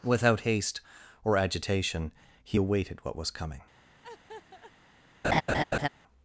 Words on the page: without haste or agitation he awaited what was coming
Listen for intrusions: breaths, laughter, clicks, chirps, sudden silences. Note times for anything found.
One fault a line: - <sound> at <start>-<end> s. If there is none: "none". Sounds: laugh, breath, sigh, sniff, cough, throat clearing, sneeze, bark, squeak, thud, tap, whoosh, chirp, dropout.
- laugh at 4.0-4.7 s
- laugh at 5.2-5.9 s